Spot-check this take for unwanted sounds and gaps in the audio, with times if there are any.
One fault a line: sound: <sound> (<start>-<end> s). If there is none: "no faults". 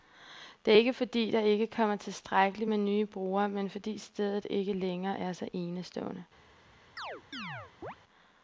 sound: chirp (7.0-8.0 s)